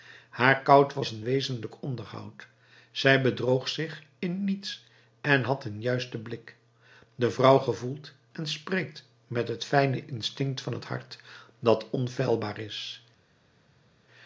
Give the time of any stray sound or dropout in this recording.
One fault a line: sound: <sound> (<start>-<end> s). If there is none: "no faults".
no faults